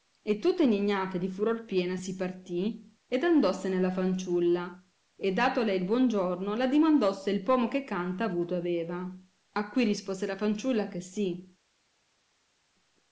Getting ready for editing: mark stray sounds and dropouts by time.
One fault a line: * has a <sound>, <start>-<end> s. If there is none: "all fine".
all fine